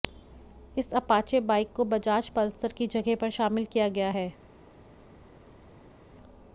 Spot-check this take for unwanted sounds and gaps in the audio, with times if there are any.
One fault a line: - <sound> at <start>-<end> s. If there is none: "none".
none